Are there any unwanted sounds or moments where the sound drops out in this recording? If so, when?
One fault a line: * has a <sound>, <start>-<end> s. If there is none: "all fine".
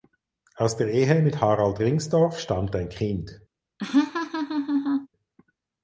* has a laugh, 3.8-5.1 s